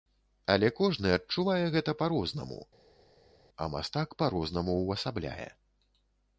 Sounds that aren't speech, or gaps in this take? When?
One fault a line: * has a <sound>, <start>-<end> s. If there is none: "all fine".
all fine